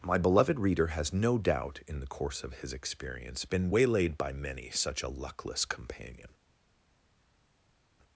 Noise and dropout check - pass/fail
pass